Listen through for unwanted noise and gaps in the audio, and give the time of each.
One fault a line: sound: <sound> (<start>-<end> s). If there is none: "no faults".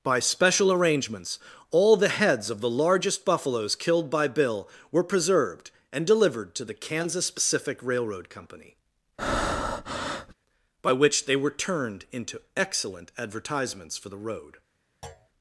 sound: breath (9.2-10.3 s)
sound: thud (15.0-15.3 s)